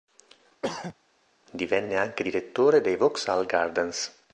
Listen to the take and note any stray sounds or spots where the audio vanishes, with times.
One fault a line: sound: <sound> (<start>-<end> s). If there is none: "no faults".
sound: throat clearing (0.6-0.9 s)